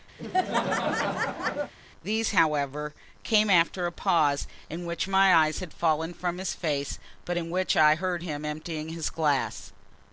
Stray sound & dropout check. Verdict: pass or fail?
fail